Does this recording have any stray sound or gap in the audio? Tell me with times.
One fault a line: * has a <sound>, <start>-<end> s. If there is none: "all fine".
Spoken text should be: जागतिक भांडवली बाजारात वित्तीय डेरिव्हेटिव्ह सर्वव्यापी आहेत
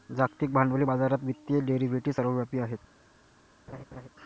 * has a laugh, 3.7-4.1 s